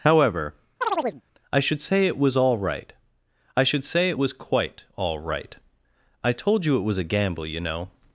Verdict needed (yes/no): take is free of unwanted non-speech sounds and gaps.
no